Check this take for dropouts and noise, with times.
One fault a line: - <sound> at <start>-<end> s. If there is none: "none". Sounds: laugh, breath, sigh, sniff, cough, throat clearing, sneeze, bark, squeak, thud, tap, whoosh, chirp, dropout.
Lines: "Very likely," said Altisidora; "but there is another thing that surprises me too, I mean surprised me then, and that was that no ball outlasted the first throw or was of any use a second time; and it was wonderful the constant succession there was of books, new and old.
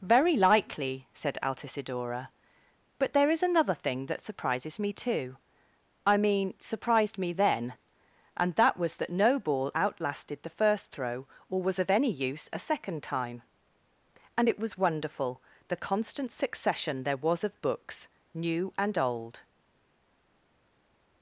none